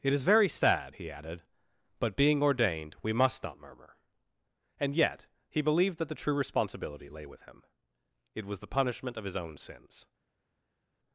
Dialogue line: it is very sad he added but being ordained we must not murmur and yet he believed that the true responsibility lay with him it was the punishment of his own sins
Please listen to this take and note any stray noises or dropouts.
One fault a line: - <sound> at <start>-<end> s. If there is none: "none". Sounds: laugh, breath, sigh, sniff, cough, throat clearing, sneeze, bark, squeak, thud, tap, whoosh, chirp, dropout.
none